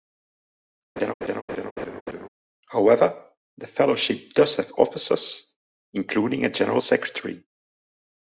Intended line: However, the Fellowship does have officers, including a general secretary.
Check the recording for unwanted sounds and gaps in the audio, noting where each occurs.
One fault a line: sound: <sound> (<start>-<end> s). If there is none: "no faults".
sound: laugh (1.0-2.3 s)